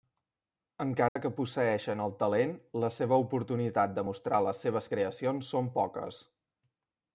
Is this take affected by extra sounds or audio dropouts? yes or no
yes